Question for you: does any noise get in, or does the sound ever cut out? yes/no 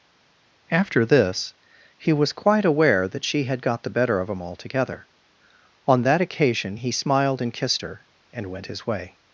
no